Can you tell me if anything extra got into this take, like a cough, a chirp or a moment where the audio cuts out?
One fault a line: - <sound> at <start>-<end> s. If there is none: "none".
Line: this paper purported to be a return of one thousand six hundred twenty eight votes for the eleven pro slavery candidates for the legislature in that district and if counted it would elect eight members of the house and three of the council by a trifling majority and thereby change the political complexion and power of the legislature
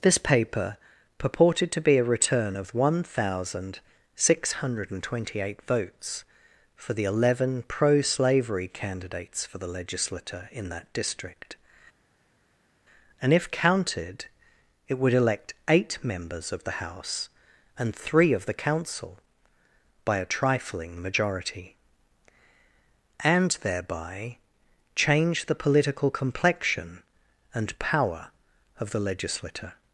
none